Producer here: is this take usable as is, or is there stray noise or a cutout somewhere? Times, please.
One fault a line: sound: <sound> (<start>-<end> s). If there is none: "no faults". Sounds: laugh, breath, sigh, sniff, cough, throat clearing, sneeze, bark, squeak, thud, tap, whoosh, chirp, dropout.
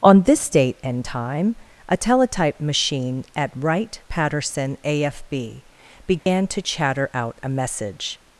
sound: dropout (6.2-6.3 s)